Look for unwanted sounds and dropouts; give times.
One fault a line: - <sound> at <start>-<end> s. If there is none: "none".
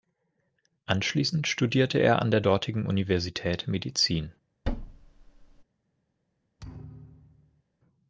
- thud at 4.6-5.6 s
- thud at 6.6-7.6 s